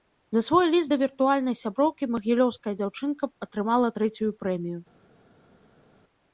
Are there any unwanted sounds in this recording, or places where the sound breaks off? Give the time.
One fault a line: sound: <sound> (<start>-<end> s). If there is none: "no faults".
no faults